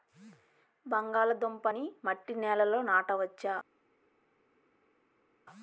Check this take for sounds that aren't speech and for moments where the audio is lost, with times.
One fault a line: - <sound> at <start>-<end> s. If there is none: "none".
none